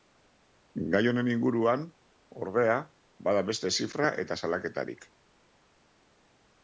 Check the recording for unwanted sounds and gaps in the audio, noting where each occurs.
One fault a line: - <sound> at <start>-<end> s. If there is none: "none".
none